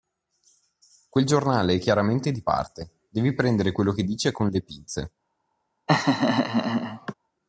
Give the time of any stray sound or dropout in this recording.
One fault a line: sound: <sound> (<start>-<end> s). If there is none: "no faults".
sound: laugh (5.9-7.1 s)